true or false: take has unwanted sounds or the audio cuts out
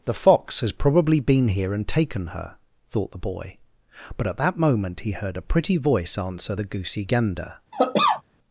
true